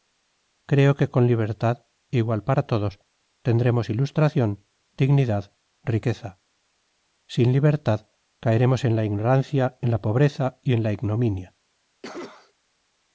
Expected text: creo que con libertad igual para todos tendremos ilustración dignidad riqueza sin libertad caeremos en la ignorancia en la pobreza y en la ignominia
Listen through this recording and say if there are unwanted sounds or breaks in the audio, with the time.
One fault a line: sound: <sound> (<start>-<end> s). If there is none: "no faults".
sound: cough (12.0-12.5 s)